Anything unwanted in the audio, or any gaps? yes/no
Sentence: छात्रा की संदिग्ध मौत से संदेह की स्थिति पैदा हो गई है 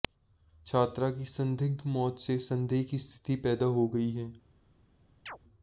yes